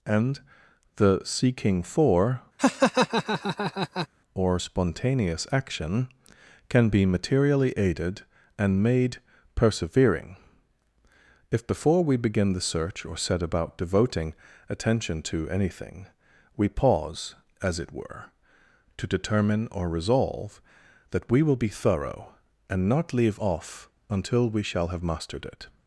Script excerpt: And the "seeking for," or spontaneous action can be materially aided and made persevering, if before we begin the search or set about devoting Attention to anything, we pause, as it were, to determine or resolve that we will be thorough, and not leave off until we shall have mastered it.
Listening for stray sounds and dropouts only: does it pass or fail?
fail